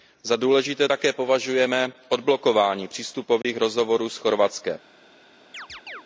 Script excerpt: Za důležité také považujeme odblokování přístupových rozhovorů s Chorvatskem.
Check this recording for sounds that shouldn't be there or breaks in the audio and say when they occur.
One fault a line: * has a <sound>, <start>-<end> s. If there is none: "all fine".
* has a dropout, 3.4-3.4 s
* has a chirp, 5.5-6.0 s